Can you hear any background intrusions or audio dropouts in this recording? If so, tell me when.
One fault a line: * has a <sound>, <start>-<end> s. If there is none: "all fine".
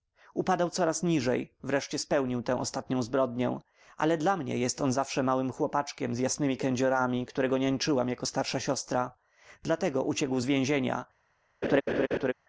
* has a laugh, 11.6-12.3 s